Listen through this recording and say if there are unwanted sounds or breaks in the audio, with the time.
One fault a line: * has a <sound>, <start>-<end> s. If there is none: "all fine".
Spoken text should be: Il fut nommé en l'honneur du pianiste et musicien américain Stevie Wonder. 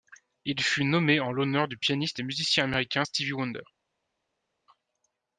all fine